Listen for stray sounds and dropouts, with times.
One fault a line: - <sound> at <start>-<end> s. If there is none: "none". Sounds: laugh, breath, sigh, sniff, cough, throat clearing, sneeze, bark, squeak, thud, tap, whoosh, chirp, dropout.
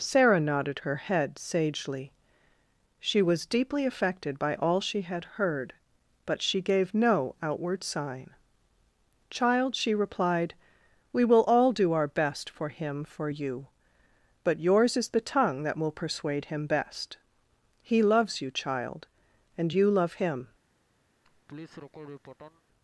- laugh at 21.2-22.6 s